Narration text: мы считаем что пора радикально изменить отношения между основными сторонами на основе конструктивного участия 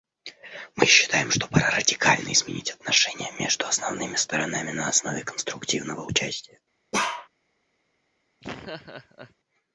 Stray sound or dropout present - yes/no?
yes